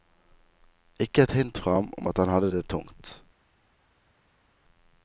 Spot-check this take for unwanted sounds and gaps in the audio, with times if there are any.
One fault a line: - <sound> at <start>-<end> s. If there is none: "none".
none